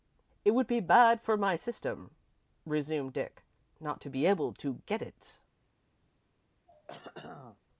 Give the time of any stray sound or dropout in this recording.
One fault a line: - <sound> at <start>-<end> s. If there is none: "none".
- throat clearing at 6.7-7.6 s